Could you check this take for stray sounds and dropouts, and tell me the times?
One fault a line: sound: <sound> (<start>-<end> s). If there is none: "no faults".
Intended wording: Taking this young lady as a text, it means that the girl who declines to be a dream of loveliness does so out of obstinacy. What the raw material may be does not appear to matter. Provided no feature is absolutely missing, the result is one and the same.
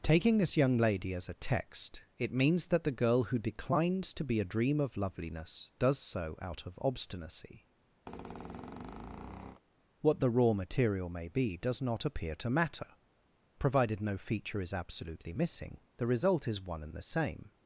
sound: squeak (8.1-9.6 s)